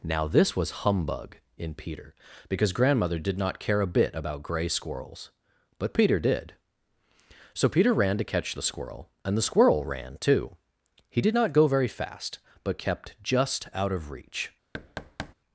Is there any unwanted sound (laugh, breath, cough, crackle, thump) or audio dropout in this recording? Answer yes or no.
yes